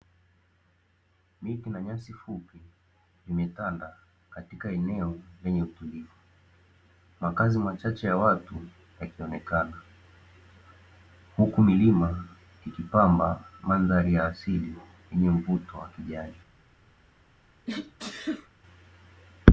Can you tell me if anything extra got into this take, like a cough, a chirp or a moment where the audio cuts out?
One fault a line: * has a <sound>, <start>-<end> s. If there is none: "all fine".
* has a sneeze, 17.7-18.5 s